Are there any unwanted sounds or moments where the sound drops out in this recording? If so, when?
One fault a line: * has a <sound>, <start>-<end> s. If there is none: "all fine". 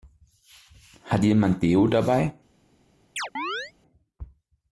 * has a chirp, 3.2-3.7 s